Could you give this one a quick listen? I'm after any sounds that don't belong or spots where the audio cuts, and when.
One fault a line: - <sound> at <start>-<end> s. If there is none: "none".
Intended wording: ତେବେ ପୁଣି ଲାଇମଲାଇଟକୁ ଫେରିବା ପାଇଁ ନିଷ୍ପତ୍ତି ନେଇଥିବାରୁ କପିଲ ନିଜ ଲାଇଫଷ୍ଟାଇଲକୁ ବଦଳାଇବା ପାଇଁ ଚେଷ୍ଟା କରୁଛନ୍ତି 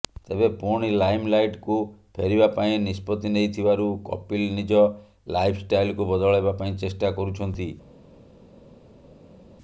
none